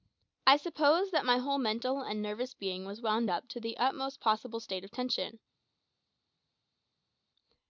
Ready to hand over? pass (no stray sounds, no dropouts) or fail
pass